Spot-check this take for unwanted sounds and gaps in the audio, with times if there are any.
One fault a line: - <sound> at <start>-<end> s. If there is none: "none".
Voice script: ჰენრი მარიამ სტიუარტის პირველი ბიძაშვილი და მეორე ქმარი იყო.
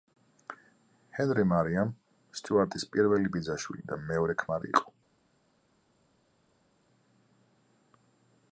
none